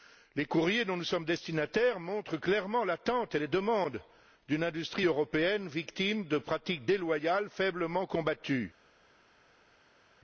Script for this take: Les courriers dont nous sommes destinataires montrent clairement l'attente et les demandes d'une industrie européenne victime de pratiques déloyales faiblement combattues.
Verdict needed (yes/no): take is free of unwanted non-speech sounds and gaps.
yes